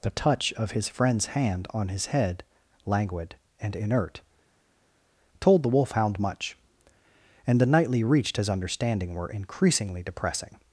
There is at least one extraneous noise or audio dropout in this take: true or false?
false